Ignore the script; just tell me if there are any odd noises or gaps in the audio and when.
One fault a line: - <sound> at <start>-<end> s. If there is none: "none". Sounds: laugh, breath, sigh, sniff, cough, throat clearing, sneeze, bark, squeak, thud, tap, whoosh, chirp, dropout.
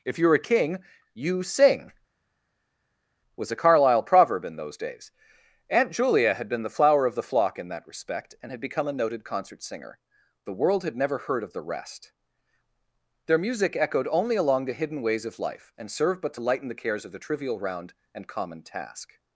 none